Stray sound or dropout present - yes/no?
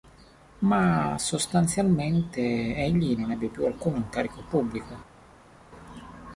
no